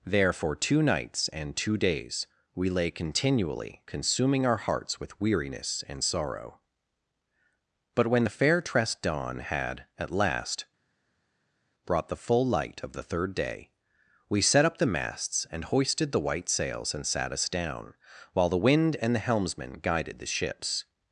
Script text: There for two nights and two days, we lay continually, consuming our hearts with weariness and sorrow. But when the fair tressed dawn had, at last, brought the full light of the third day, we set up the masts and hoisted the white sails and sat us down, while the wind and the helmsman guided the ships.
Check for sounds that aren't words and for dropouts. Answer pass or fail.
pass